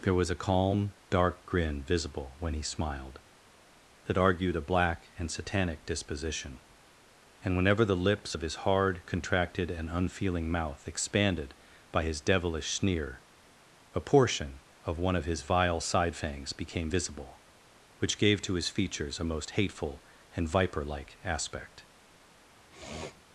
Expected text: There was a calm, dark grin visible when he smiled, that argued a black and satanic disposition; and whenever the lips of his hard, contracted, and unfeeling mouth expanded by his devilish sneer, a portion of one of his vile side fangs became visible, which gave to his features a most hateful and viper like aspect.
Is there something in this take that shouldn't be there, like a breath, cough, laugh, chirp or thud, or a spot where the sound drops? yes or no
yes